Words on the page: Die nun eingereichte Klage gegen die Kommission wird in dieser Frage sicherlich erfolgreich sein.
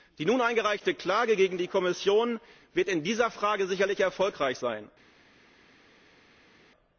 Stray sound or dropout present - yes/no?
no